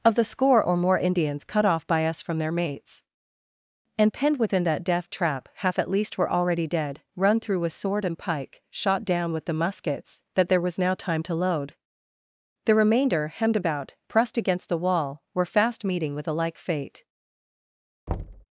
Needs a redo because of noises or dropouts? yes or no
yes